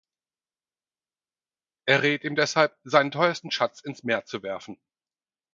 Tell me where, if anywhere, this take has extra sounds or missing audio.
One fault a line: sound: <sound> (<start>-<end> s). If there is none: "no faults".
no faults